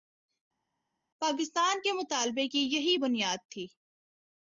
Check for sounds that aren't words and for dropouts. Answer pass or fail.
pass